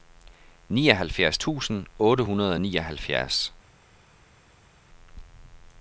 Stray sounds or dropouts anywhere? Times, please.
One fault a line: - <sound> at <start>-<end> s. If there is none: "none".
none